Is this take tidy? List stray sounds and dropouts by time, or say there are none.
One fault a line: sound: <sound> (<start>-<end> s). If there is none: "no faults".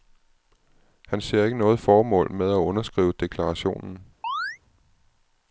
sound: chirp (4.2-4.6 s)